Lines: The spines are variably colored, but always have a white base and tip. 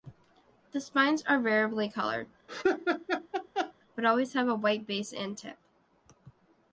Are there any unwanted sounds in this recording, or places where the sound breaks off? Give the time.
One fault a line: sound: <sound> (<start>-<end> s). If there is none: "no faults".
sound: laugh (2.5-3.7 s)